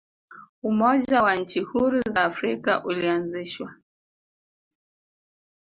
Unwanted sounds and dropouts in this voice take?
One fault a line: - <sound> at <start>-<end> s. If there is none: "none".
none